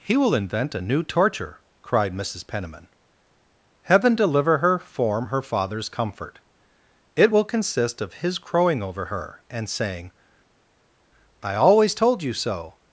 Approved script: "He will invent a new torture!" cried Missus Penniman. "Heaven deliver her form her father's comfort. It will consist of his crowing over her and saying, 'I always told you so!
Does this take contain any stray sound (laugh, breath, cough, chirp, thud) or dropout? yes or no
no